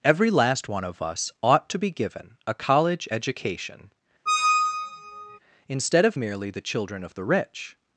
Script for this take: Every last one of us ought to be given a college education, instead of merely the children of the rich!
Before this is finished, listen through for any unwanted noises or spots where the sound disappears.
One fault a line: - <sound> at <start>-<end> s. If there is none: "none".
- squeak at 4.3-5.4 s